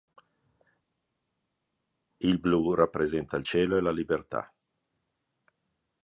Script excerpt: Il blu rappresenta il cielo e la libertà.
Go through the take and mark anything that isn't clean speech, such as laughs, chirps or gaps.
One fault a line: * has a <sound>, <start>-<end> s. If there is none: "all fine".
all fine